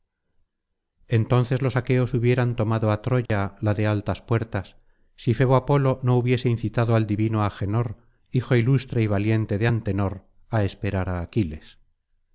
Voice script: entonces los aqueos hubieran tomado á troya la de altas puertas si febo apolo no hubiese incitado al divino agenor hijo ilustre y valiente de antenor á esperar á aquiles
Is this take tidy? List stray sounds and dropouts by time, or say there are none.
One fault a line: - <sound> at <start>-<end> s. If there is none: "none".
- dropout at 3.3-3.3 s